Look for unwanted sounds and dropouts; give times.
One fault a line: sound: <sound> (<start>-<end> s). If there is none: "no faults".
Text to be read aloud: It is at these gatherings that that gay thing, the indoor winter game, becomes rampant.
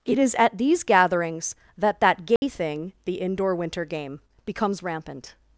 sound: dropout (2.4-2.4 s)